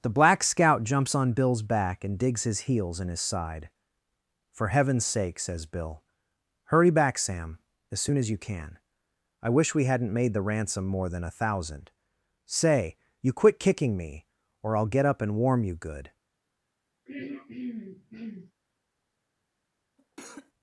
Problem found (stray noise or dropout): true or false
true